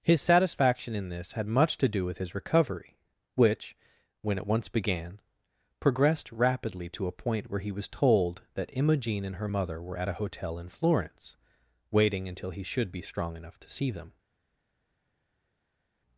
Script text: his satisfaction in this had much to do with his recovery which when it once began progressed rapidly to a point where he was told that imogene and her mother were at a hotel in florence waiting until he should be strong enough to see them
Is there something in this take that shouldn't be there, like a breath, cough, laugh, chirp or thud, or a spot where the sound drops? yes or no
no